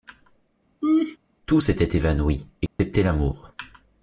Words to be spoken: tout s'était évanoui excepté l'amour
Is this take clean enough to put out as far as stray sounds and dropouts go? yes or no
no